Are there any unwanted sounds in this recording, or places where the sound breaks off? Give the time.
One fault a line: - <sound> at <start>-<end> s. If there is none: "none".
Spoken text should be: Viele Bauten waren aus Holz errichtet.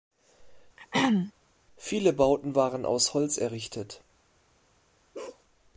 - throat clearing at 0.8-1.3 s
- bark at 5.1-5.4 s